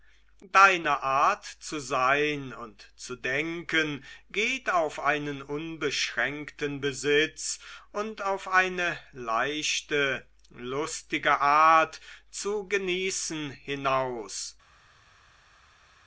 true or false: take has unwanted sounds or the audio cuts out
false